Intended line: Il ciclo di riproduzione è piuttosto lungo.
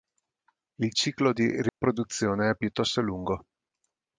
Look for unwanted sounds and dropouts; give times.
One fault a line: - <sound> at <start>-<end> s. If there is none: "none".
- dropout at 1.7-1.8 s